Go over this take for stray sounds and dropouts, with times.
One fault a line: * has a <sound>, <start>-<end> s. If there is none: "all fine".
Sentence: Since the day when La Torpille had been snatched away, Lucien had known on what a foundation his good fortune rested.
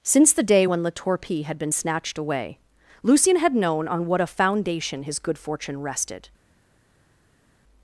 all fine